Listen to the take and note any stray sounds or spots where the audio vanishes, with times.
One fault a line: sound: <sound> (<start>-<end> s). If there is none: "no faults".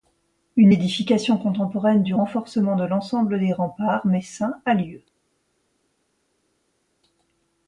no faults